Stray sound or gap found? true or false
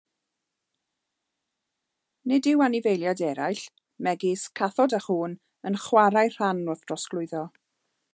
false